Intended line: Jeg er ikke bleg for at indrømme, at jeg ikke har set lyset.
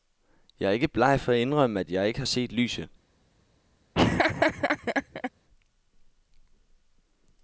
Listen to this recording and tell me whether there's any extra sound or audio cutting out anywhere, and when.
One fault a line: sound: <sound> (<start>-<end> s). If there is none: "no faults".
sound: laugh (3.9-5.3 s)